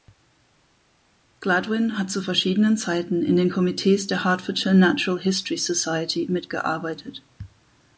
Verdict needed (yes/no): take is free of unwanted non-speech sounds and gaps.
yes